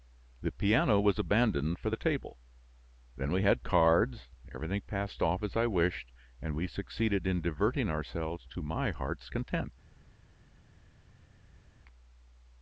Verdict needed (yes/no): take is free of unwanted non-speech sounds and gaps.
yes